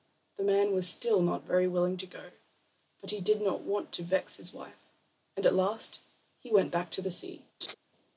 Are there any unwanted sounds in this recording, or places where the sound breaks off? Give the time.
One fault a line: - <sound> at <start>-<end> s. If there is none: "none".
- laugh at 7.6-7.7 s